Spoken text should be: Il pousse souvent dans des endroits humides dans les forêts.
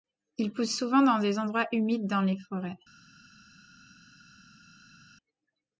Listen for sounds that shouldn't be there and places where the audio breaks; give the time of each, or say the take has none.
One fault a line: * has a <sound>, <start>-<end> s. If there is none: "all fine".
all fine